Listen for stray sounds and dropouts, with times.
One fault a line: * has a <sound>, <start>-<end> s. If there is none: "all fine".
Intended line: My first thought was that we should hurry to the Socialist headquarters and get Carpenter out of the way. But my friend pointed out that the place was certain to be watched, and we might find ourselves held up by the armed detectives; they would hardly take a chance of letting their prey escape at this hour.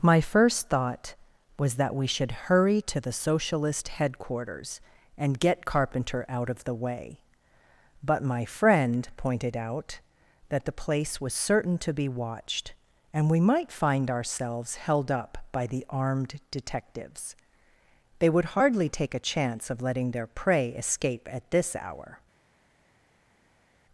all fine